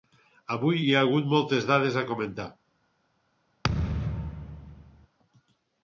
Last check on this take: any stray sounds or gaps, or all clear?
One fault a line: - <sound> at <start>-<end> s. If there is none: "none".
- thud at 3.6-5.1 s